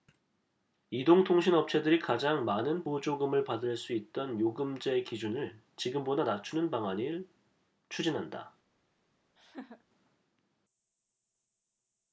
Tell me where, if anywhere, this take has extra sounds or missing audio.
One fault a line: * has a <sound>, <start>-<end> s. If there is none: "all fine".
* has a laugh, 9.4-9.8 s